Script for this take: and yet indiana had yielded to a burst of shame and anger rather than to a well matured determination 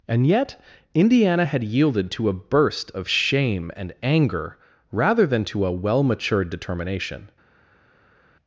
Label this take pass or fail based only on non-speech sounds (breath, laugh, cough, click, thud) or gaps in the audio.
pass